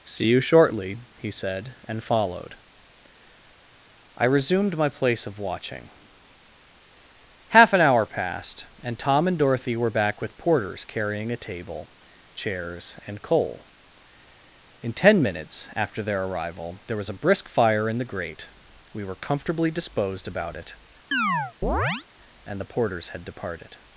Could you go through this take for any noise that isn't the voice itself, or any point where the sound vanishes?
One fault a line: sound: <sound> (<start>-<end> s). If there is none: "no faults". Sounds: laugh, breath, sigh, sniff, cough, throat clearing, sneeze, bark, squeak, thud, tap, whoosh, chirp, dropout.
sound: chirp (21.1-22.1 s)